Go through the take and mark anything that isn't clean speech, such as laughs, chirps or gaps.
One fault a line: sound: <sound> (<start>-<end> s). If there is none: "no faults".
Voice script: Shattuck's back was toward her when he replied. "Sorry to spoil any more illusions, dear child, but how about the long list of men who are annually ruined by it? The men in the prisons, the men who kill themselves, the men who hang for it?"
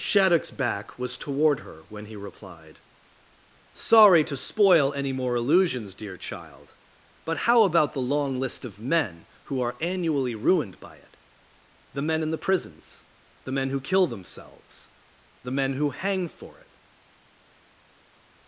no faults